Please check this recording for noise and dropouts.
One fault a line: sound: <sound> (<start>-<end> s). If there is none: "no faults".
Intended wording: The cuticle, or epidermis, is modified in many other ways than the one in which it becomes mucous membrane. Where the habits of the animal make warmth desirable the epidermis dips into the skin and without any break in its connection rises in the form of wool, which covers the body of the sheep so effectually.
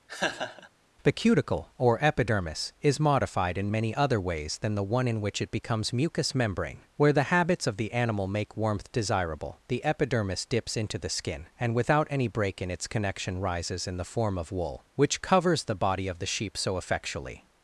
sound: laugh (0.1-0.7 s)